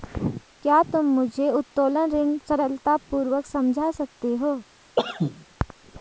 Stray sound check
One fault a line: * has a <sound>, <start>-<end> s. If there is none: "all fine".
* has a cough, 5.0-5.5 s